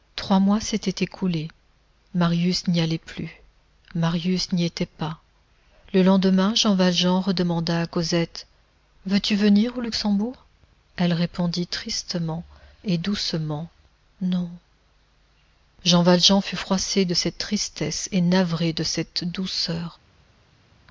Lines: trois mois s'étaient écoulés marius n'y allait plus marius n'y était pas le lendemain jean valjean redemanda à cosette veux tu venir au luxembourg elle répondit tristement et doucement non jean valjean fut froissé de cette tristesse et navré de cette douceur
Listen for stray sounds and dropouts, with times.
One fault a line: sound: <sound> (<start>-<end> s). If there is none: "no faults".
no faults